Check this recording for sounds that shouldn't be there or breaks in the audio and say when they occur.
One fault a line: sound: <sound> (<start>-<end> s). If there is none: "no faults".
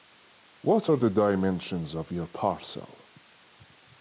no faults